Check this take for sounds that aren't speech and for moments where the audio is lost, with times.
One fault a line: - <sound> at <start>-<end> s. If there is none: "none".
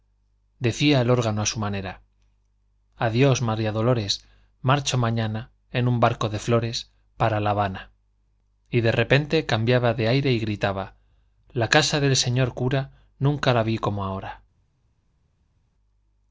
none